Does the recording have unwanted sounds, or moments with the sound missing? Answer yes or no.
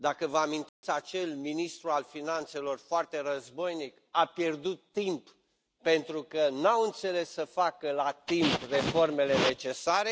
yes